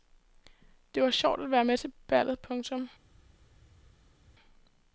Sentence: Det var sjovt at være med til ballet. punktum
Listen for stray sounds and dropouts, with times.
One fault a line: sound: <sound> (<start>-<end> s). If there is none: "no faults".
no faults